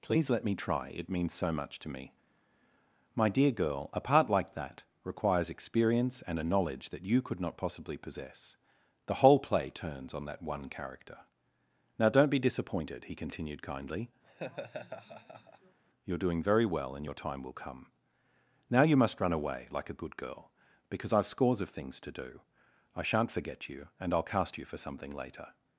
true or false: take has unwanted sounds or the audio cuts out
true